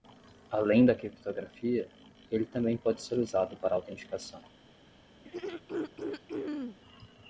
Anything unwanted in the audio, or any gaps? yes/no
yes